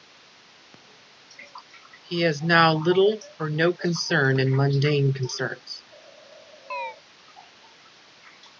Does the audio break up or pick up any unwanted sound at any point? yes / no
yes